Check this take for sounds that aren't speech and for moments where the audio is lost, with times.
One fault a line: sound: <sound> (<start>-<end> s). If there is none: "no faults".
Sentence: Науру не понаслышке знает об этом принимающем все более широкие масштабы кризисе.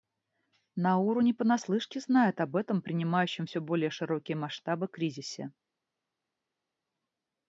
no faults